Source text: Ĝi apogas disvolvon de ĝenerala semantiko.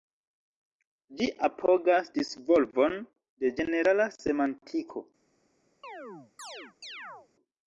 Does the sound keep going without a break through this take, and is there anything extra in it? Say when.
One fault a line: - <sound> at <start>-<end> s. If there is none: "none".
- chirp at 5.8-7.3 s